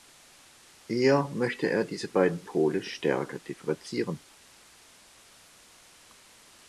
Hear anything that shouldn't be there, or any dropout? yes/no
no